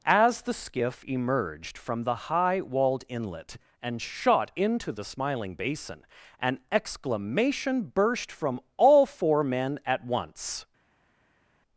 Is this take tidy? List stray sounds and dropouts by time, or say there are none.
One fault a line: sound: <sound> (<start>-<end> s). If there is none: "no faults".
no faults